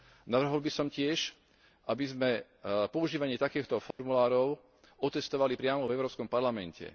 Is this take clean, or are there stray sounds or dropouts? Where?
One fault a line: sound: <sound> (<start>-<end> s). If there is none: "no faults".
sound: dropout (3.9-4.0 s)